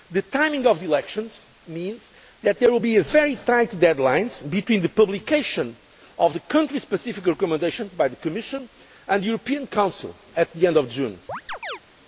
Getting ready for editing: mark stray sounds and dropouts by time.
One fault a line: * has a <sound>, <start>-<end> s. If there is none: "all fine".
* has a chirp, 11.3-11.8 s